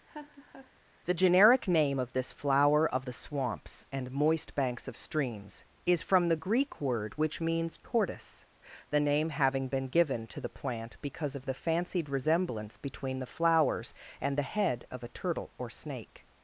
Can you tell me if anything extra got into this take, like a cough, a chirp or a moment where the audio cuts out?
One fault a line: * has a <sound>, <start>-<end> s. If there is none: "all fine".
* has a laugh, 0.1-0.7 s